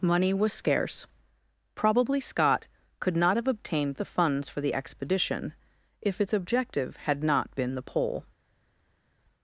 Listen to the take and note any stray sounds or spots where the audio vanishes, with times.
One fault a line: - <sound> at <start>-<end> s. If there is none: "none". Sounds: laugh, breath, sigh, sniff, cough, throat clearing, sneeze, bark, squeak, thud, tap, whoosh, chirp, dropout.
none